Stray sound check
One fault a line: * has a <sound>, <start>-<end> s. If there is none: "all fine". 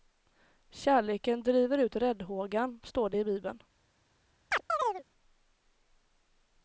* has a chirp, 4.5-5.0 s